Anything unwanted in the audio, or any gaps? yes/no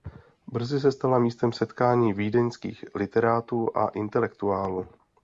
no